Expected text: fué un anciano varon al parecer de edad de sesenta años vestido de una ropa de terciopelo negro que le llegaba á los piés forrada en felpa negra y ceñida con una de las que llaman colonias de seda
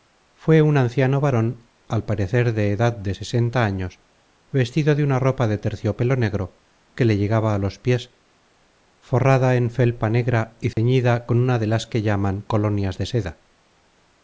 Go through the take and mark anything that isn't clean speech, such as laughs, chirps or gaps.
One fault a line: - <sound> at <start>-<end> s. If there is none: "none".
- dropout at 10.7-10.8 s